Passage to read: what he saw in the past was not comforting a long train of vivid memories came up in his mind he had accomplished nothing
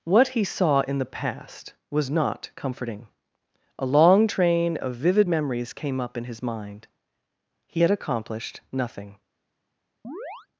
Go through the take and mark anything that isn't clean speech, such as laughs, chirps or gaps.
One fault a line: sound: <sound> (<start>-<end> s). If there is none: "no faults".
sound: chirp (10.0-10.5 s)